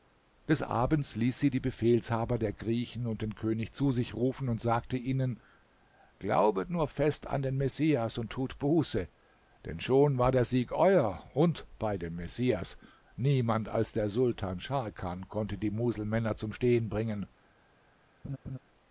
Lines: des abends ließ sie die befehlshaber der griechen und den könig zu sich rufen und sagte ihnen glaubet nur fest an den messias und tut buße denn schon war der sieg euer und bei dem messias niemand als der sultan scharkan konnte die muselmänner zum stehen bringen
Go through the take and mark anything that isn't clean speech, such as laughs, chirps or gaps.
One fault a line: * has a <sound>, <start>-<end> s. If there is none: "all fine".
* has a laugh, 18.2-18.6 s